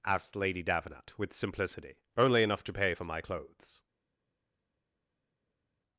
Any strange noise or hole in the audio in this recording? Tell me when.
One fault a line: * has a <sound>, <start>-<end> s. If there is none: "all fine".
all fine